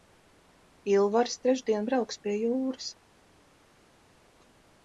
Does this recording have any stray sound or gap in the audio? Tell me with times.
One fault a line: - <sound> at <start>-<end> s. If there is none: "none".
none